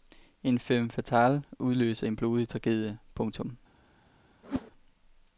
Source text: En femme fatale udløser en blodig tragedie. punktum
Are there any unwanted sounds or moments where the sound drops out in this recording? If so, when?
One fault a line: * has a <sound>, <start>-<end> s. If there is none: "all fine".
* has a whoosh, 4.4-4.7 s